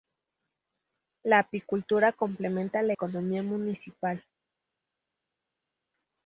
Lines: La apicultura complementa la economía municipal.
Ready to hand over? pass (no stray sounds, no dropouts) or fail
pass